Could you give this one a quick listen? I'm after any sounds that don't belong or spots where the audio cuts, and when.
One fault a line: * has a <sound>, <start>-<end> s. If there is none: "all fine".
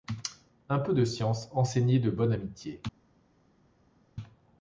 all fine